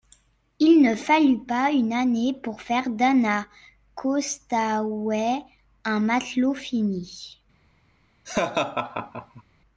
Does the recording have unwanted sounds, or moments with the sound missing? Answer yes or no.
yes